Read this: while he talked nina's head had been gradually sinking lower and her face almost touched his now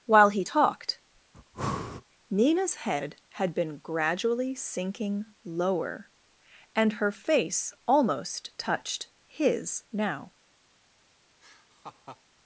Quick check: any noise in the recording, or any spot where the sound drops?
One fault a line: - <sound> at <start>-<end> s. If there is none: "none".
- breath at 1.3-2.0 s
- laugh at 11.4-12.2 s